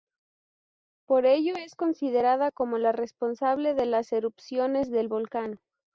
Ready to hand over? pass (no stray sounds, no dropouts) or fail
pass